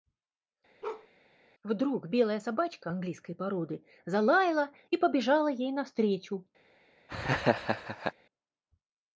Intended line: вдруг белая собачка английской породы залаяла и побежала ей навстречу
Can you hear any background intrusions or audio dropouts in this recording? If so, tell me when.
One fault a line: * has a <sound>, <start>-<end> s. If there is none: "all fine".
* has a bark, 0.8-1.1 s
* has a laugh, 7.1-8.1 s